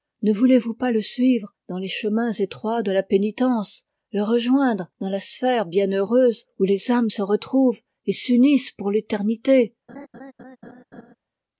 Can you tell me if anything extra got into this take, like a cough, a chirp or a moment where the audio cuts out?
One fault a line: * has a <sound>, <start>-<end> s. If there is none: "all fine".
* has a laugh, 9.9-11.2 s